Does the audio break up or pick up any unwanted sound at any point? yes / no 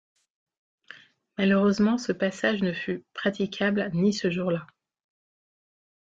no